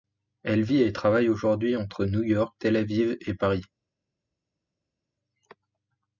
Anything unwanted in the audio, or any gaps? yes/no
no